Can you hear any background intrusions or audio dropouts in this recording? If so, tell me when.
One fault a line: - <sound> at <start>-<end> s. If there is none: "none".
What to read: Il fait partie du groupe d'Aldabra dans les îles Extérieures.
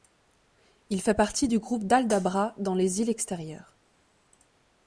none